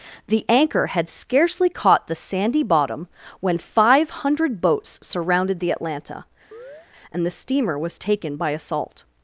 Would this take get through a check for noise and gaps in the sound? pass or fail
fail